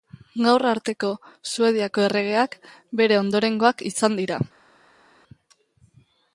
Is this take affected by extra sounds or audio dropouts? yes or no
no